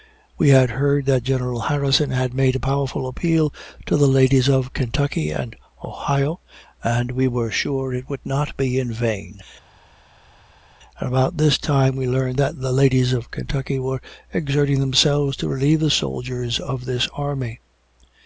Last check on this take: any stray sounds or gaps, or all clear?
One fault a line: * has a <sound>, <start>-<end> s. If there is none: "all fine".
all fine